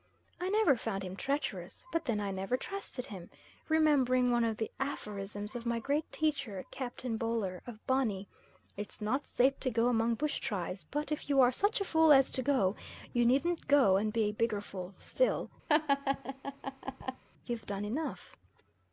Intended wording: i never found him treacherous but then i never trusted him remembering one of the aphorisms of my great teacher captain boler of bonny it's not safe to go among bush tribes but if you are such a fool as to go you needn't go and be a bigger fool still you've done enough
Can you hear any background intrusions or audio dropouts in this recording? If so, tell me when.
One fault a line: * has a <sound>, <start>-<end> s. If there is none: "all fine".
* has a laugh, 15.7-17.2 s